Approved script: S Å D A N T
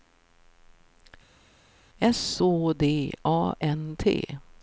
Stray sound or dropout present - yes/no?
no